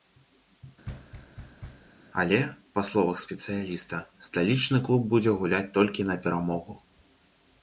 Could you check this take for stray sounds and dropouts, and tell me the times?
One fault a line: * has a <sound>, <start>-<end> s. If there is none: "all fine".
* has a thud, 0.8-1.9 s